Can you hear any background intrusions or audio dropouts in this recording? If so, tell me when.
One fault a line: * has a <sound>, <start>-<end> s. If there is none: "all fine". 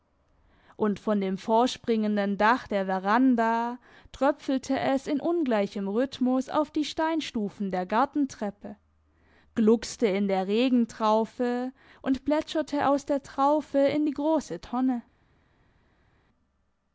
all fine